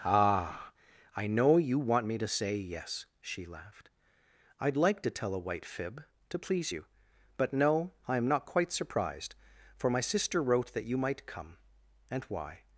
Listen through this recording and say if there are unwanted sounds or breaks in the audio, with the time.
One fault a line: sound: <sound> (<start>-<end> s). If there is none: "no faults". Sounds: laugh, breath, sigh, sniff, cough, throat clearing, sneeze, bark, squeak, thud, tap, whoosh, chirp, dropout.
no faults